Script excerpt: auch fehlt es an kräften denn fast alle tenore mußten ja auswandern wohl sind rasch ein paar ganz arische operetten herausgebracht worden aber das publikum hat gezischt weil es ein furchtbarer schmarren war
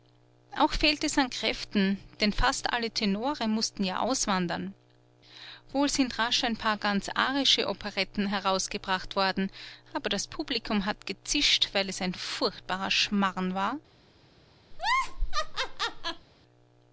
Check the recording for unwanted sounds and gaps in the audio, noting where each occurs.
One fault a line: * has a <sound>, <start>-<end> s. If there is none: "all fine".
* has a laugh, 14.7-16.3 s